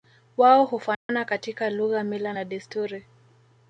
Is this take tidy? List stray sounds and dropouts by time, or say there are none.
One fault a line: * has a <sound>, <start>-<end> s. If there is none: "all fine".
* has a dropout, 0.9-1.1 s